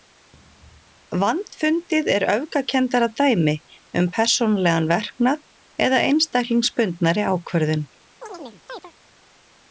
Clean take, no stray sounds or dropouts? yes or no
no